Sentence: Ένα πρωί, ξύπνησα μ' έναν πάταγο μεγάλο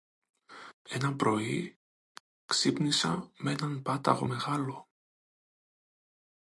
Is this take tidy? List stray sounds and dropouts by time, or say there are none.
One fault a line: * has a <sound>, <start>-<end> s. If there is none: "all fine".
all fine